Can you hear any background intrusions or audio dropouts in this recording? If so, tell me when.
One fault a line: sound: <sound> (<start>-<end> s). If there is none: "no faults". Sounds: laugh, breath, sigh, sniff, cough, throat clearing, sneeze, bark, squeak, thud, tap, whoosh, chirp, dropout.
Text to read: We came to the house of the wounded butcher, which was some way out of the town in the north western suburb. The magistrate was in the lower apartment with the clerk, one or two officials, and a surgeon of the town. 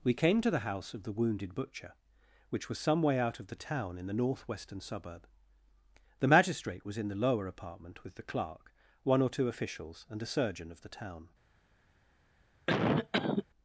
sound: cough (12.7-13.5 s)